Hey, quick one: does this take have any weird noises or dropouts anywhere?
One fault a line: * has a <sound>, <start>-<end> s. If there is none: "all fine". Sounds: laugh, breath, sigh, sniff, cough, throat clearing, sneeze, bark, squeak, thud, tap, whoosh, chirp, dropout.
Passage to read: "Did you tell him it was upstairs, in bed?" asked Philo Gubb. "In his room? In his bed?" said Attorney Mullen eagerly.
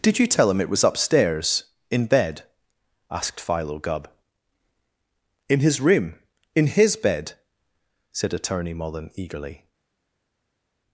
all fine